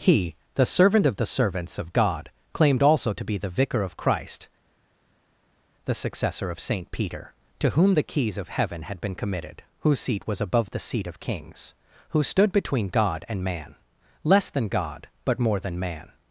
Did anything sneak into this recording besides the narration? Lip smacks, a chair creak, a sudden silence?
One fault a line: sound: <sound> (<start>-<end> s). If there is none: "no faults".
no faults